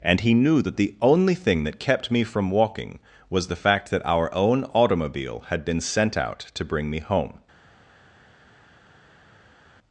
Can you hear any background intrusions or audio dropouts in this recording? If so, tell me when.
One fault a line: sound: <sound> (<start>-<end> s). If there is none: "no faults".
no faults